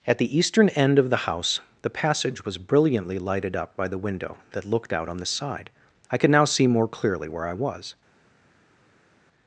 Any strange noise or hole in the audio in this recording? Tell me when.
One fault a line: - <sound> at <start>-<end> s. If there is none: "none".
none